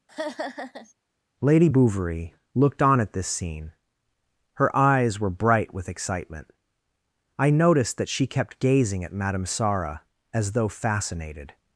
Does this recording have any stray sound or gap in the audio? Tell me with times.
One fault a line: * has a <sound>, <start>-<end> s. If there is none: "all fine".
* has a laugh, 0.1-0.9 s